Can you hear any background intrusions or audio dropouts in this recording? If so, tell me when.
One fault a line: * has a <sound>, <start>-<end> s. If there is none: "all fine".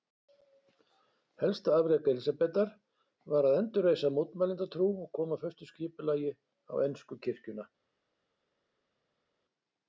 all fine